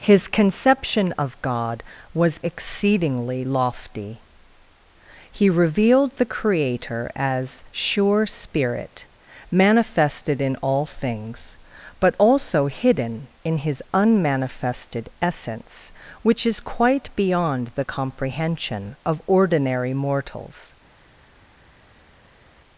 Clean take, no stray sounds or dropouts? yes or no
yes